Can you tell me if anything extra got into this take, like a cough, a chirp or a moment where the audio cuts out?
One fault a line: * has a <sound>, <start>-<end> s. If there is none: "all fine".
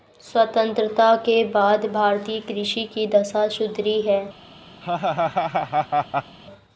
* has a laugh, 4.8-6.4 s